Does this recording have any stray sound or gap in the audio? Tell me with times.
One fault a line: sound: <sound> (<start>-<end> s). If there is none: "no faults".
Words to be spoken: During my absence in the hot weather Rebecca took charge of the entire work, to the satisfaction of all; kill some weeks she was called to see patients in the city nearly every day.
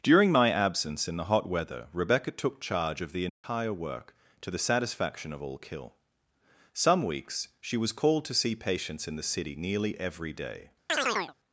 sound: dropout (3.3-3.4 s)
sound: chirp (10.9-11.3 s)